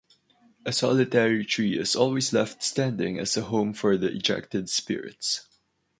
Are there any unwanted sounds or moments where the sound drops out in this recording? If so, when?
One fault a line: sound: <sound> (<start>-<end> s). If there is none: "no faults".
no faults